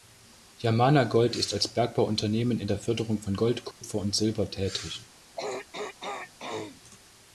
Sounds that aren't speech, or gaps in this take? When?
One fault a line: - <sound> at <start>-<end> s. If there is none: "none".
- dropout at 3.7-3.8 s
- throat clearing at 5.4-6.8 s